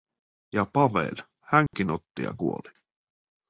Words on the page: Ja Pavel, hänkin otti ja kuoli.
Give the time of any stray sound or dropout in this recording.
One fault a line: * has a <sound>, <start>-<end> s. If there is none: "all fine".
* has a dropout, 1.7-1.7 s